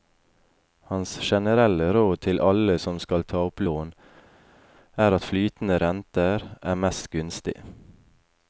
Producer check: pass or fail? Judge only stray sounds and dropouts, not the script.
pass